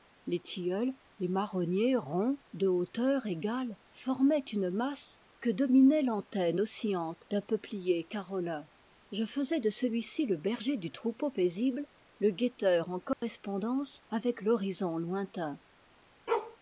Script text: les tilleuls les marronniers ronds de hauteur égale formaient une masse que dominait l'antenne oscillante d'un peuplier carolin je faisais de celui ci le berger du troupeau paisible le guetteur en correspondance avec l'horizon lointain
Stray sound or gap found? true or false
true